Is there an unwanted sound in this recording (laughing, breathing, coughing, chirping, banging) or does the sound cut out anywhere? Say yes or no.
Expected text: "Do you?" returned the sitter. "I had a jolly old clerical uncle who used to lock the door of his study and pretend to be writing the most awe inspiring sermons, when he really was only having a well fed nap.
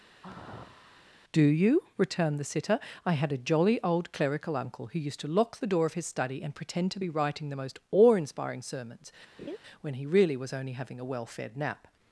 yes